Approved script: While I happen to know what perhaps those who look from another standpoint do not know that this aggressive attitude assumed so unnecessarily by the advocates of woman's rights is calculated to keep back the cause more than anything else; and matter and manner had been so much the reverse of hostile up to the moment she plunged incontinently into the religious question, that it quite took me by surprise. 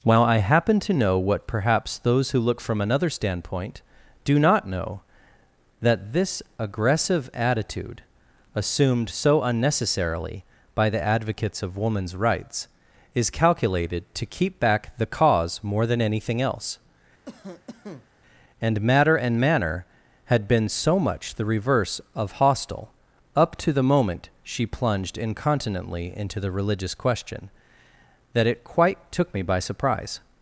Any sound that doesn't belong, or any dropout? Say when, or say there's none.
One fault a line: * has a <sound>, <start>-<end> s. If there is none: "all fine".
* has a cough, 17.3-18.1 s